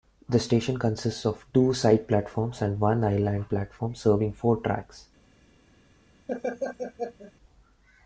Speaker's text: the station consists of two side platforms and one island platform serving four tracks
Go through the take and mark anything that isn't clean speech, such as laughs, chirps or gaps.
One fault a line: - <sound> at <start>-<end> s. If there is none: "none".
- laugh at 6.3-7.3 s